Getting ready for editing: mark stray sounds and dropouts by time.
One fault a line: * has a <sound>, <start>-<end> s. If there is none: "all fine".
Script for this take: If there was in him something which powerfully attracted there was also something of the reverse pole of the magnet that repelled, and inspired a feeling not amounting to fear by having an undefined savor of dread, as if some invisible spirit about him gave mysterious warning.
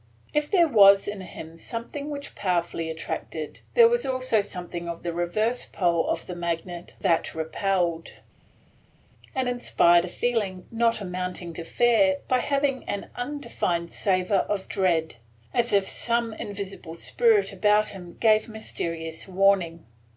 all fine